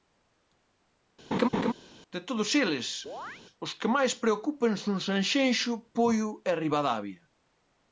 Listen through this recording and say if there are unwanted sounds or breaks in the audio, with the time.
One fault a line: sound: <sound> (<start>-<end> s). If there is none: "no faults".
sound: laugh (1.3-1.7 s)
sound: chirp (3.1-3.4 s)